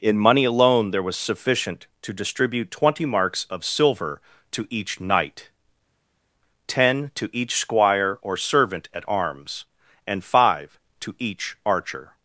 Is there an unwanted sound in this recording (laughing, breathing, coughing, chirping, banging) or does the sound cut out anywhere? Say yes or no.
no